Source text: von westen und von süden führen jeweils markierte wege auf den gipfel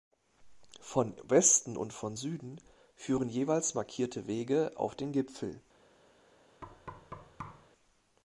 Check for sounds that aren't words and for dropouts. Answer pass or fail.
fail